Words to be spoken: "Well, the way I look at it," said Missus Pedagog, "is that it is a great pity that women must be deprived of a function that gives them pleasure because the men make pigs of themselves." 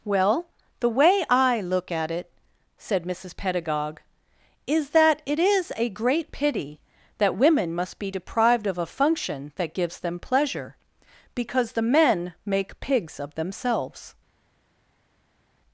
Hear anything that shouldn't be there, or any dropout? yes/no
no